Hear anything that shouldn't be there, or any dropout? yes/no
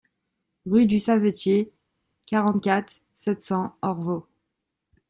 no